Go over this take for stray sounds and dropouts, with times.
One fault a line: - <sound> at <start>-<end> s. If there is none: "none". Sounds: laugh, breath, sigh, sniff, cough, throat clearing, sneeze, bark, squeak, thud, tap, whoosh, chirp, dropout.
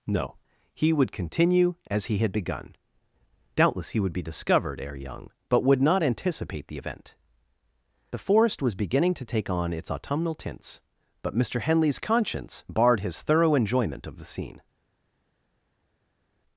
none